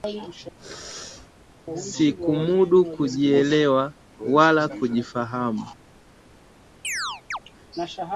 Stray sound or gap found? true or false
true